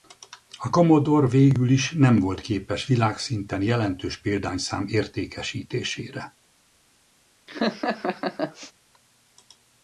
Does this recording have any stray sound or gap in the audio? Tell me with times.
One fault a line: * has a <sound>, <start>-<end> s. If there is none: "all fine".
* has a laugh, 7.5-8.7 s